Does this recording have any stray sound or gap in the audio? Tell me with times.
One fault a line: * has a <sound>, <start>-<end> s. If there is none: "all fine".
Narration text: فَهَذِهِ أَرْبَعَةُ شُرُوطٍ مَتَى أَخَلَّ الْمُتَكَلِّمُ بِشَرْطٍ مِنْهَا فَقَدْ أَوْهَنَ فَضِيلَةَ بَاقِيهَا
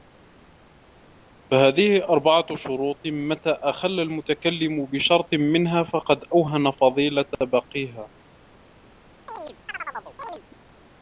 * has a chirp, 9.3-10.4 s